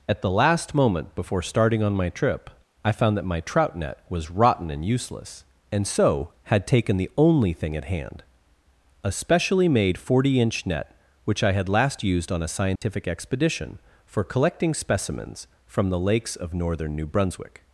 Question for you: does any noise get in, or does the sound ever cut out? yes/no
yes